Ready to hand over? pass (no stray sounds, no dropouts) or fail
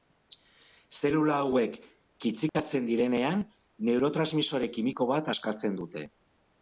fail